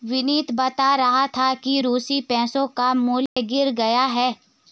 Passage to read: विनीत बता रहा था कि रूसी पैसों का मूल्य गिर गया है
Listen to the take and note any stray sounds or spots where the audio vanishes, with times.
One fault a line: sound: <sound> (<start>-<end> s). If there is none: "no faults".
sound: dropout (3.3-3.4 s)